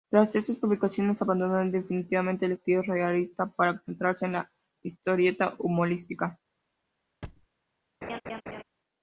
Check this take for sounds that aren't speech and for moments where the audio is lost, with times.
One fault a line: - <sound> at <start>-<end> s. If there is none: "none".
- thud at 7.2-7.5 s
- laugh at 8.0-8.6 s